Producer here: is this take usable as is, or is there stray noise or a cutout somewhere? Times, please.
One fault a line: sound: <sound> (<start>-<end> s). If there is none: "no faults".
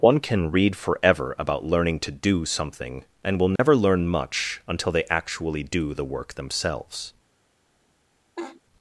sound: dropout (3.6-3.6 s)
sound: laugh (8.4-8.6 s)